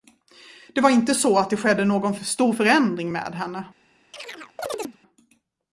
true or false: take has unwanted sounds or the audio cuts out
true